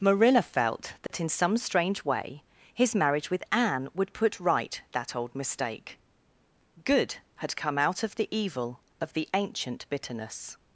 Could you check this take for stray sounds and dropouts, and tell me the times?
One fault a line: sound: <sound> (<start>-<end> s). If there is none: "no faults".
sound: dropout (1.1-1.1 s)